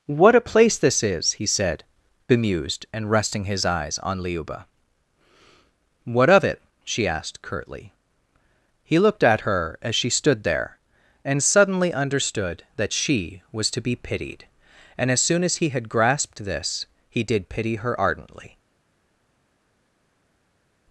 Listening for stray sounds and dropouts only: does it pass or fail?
pass